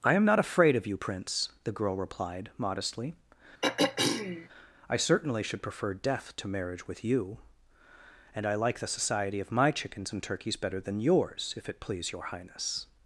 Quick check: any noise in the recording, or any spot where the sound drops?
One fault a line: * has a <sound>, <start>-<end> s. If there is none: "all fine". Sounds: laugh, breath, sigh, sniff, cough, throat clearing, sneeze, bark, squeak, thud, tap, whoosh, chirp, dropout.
* has a throat clearing, 3.6-4.5 s